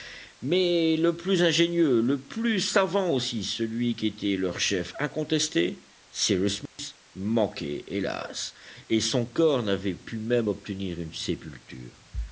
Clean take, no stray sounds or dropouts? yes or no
no